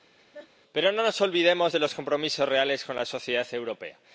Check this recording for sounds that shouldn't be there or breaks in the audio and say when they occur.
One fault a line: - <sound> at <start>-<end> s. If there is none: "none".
- laugh at 0.2-0.5 s